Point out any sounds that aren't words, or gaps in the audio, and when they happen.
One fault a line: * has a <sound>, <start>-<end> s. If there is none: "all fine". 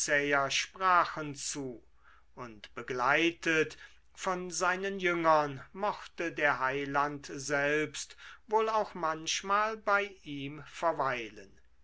all fine